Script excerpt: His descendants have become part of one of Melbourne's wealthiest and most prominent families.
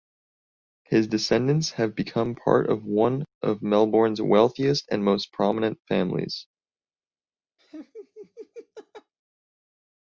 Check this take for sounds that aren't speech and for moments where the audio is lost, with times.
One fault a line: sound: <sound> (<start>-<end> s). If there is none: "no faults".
sound: laugh (7.6-9.1 s)